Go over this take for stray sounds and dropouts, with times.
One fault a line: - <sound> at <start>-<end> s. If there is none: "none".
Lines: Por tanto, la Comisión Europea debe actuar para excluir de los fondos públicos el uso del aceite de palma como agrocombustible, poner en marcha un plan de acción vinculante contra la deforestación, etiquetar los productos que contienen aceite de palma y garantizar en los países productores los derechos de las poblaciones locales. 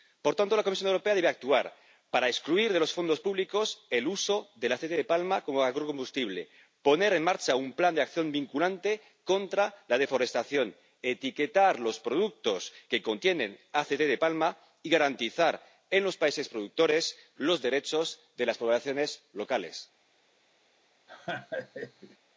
- laugh at 21.1-22.2 s